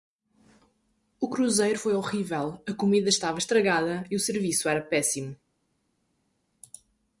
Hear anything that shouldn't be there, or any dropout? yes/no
no